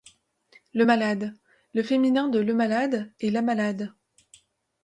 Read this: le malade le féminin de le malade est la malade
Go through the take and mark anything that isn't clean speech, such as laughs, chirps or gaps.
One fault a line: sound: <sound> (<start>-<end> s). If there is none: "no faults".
no faults